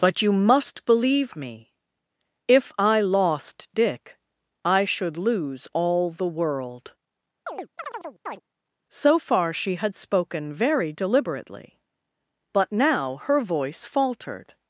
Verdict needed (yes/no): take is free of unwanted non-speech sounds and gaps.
no